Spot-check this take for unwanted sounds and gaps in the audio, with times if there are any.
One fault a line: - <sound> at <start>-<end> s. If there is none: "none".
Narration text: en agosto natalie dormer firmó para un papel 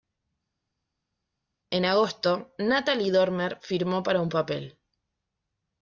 none